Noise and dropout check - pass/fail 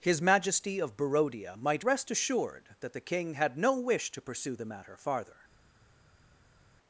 pass